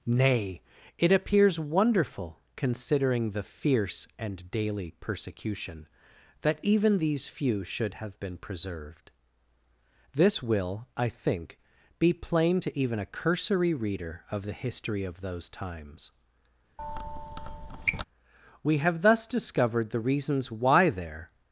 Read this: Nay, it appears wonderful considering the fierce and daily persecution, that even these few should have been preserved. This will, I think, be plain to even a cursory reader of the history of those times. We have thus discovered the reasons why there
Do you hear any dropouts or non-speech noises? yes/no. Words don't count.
yes